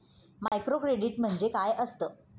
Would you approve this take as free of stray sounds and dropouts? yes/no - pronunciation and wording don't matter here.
no